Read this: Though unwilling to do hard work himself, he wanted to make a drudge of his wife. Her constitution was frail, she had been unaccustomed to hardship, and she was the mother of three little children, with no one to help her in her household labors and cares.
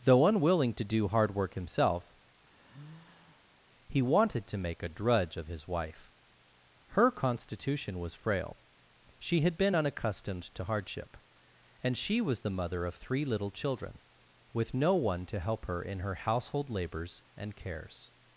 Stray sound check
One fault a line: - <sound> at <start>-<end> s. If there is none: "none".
- sigh at 2.4-3.6 s